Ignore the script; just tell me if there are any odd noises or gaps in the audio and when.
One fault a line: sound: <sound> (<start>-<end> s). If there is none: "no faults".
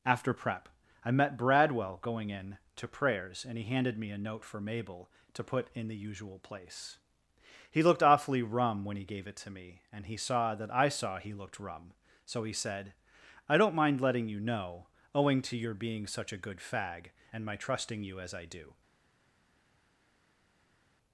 no faults